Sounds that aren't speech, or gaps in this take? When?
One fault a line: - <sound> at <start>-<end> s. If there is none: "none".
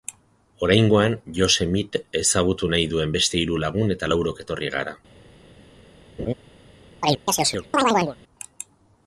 - laugh at 6.2-6.3 s
- chirp at 7.0-8.2 s